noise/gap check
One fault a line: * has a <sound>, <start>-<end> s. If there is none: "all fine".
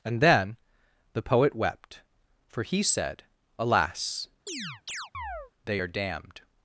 * has a chirp, 4.5-5.5 s